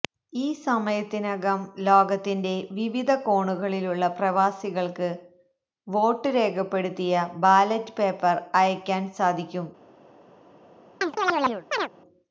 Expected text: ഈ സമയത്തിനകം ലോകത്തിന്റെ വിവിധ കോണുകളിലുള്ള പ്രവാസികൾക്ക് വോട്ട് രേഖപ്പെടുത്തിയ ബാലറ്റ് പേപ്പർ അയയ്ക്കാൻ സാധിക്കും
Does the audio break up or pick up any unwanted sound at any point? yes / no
yes